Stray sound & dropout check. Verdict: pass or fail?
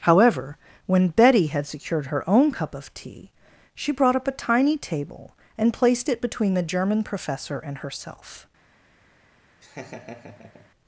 fail